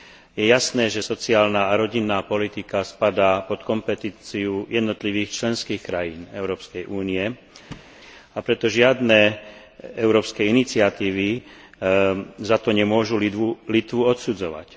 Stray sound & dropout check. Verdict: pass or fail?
fail